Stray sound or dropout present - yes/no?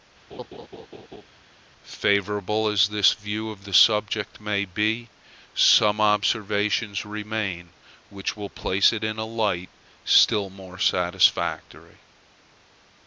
yes